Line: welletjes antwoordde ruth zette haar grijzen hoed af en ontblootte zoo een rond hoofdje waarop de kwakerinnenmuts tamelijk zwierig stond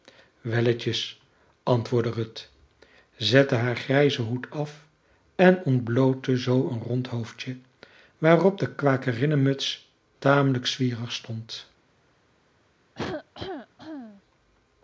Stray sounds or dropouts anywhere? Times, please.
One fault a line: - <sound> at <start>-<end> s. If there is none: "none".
- cough at 12.9-14.2 s